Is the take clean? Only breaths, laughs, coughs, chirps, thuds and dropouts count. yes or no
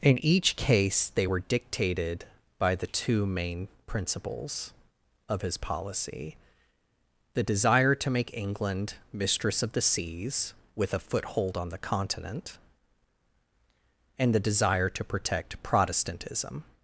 yes